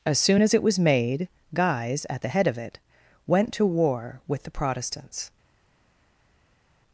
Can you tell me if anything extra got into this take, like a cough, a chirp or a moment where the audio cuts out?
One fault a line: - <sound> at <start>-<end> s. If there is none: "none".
none